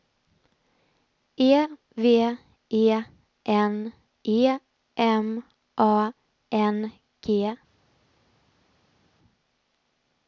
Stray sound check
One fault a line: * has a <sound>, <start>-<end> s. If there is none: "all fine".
all fine